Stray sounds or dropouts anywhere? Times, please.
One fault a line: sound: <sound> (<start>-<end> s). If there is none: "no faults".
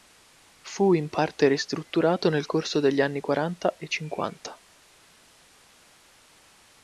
no faults